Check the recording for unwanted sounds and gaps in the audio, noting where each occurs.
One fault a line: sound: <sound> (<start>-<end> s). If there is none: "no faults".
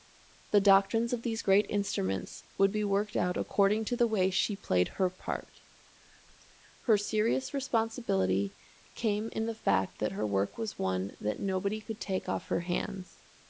no faults